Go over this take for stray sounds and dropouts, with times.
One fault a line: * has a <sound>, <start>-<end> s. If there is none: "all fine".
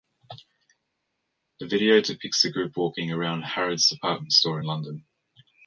all fine